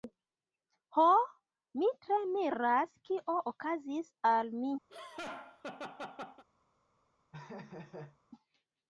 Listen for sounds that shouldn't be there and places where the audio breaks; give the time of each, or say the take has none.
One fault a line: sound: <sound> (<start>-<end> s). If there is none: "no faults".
sound: laugh (4.9-6.4 s)
sound: laugh (7.3-8.2 s)